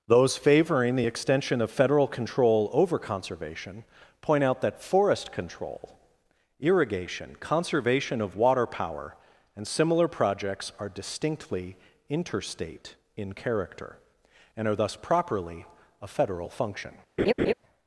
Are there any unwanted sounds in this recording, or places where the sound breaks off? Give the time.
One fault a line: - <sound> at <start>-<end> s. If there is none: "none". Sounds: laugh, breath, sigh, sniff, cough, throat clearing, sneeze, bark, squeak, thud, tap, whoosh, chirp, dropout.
- laugh at 17.2-17.5 s